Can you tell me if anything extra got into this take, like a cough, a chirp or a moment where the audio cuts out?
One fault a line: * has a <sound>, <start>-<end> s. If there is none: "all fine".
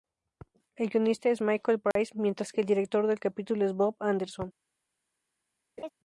* has a dropout, 1.9-2.0 s
* has a laugh, 5.8-5.9 s